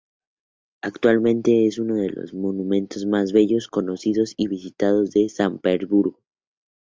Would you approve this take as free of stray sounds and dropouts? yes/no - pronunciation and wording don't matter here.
yes